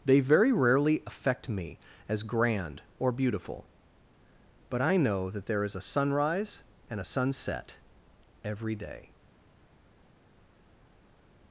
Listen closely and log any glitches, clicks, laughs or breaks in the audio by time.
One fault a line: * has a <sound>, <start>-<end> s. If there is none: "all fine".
all fine